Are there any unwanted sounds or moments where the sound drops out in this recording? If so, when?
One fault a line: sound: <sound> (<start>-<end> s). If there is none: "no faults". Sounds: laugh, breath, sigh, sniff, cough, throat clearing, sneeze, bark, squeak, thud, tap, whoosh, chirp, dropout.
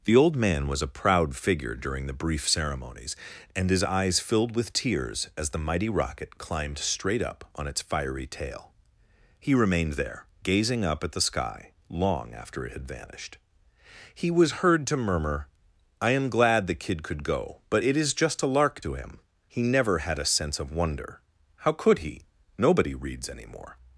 no faults